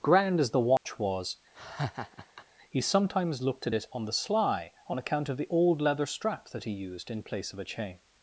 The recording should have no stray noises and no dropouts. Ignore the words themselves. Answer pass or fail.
fail